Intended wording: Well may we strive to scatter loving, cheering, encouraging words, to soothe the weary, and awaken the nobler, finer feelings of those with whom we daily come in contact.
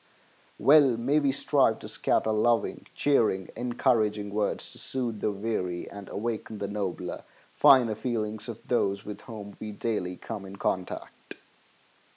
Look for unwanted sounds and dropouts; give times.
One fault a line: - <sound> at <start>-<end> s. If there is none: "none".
none